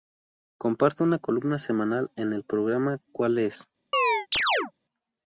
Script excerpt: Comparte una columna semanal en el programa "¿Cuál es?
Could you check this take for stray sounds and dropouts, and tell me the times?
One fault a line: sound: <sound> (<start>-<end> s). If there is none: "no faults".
sound: chirp (3.9-4.7 s)